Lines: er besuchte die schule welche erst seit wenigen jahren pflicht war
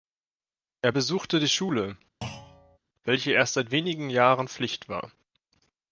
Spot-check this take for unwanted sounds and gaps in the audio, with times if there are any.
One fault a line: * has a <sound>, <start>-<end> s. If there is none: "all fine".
* has a thud, 2.2-2.8 s